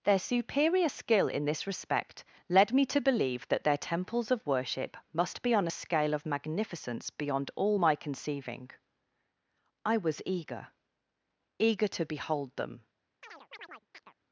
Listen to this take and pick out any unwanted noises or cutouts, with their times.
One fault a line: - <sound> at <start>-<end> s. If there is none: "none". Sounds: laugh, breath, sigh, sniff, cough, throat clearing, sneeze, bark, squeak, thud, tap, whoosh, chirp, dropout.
- chirp at 13.2-14.1 s